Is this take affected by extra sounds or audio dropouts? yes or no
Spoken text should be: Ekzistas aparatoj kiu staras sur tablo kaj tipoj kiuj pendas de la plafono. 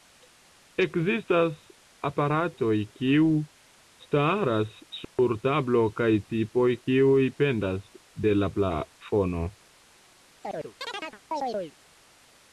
yes